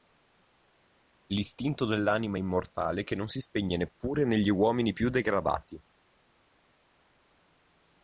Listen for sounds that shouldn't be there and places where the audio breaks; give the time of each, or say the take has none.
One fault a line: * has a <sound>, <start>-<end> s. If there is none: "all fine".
all fine